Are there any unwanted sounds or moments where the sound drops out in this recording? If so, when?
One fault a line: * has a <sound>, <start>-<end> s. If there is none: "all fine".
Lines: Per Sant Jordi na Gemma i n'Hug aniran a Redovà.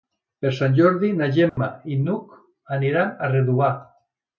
* has a dropout, 1.5-1.6 s